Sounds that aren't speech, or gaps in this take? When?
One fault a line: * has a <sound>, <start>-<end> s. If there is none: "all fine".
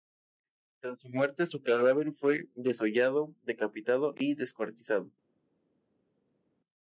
all fine